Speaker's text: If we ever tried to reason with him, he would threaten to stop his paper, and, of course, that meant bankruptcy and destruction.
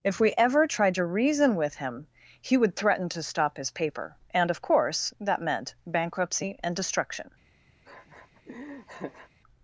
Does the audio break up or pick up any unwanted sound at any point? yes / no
yes